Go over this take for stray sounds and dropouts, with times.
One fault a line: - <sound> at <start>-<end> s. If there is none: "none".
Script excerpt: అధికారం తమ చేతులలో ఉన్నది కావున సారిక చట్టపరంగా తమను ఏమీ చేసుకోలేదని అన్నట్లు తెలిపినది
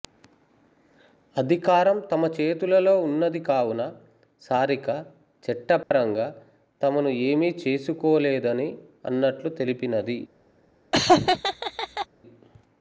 - dropout at 5.8-5.9 s
- laugh at 10.9-12.1 s